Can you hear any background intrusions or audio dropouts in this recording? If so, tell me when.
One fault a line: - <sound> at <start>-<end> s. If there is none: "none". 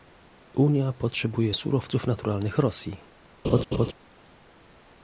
- laugh at 3.4-3.9 s